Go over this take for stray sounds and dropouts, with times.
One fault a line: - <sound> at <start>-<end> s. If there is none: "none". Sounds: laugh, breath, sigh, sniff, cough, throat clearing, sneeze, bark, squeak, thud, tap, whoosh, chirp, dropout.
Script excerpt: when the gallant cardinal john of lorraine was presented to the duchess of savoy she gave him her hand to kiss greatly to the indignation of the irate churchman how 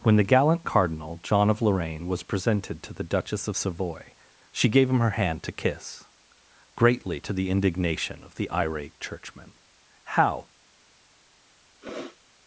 - sniff at 11.8-12.2 s